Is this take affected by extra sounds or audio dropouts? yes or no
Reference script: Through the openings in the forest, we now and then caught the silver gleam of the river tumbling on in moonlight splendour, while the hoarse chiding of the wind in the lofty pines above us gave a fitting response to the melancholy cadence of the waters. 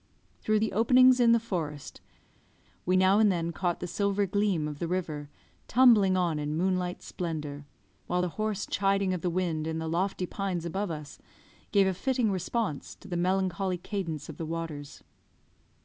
no